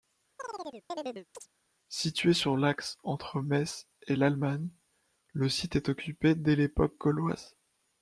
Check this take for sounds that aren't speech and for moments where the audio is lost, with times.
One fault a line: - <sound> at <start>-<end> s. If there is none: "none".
- chirp at 0.4-1.5 s